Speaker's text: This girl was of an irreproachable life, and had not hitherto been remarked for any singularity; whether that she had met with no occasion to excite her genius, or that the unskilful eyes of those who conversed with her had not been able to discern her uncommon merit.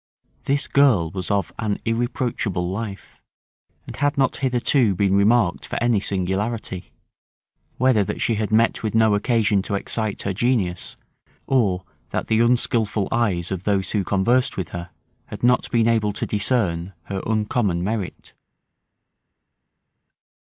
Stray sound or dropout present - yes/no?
no